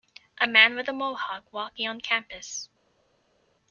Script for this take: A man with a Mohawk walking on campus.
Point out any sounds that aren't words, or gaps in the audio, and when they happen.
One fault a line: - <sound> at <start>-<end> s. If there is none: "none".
none